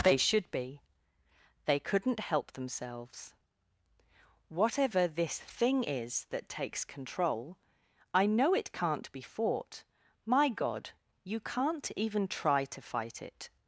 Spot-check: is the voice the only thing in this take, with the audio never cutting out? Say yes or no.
yes